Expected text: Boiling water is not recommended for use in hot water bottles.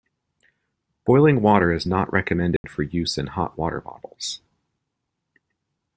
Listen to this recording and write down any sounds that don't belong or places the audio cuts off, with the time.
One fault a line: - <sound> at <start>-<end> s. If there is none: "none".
- dropout at 2.6-2.6 s